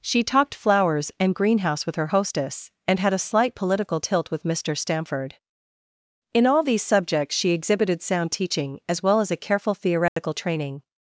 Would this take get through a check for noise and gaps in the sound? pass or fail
fail